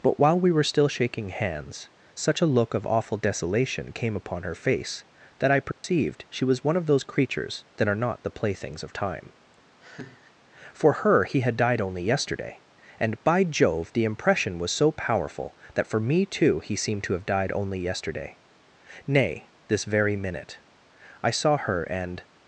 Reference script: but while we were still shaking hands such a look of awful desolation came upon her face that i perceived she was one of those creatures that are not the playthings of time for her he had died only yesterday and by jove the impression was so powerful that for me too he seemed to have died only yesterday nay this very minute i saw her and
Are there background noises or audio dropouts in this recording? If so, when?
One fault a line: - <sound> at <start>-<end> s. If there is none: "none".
- dropout at 5.7-5.8 s
- laugh at 9.8-10.3 s